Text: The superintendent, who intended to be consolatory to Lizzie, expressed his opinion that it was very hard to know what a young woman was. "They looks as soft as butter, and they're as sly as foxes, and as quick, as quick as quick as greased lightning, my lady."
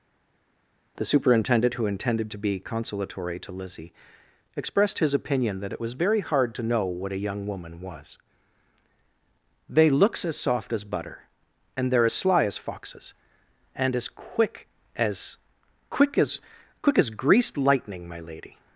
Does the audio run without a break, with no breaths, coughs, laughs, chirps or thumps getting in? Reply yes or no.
yes